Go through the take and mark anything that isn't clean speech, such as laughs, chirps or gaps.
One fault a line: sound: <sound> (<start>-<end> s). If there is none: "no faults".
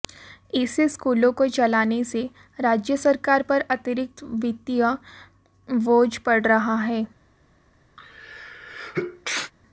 sound: sneeze (8.0-9.5 s)